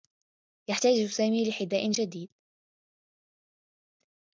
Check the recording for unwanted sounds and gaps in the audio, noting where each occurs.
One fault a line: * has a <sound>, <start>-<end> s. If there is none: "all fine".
all fine